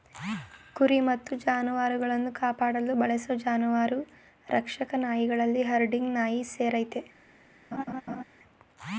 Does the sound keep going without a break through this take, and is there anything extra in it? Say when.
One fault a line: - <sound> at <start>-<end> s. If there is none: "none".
- laugh at 7.7-8.2 s